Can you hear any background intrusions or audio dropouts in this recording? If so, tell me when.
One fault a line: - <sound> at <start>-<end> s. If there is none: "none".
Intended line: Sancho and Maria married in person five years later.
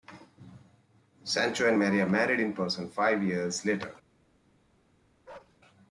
- bark at 5.3-5.6 s